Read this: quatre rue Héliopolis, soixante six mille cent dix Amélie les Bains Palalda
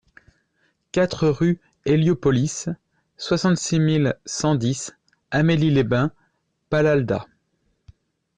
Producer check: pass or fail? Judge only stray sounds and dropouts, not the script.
pass